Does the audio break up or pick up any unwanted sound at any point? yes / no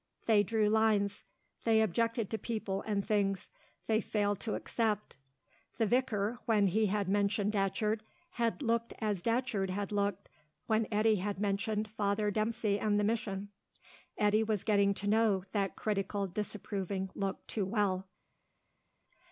no